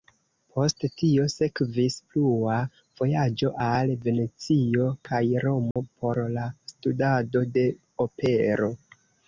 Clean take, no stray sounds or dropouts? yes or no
no